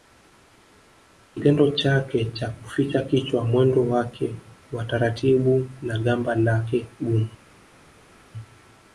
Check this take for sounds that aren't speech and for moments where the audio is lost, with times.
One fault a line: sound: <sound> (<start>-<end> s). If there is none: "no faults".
no faults